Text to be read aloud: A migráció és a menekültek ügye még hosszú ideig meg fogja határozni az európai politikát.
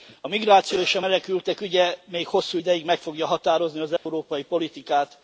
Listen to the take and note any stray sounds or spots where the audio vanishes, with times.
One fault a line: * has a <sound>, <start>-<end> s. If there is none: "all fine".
* has a dropout, 4.0-4.1 s